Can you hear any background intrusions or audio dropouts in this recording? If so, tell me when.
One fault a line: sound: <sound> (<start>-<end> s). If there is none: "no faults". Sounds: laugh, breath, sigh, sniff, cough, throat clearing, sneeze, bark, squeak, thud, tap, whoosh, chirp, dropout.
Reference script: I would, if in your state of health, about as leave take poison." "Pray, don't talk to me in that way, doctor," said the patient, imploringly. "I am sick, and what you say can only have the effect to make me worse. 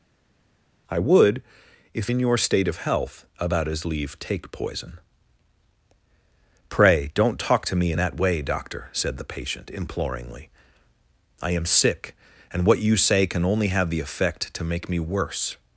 no faults